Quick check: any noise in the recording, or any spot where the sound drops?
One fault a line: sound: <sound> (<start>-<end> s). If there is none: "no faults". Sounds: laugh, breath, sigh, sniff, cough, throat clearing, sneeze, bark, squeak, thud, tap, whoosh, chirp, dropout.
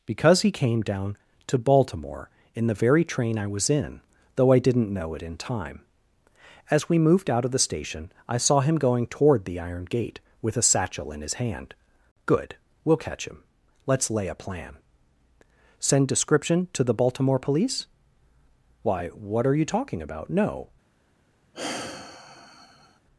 sound: sigh (21.5-23.0 s)